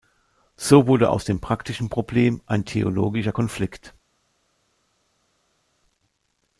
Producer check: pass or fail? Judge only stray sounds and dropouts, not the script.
pass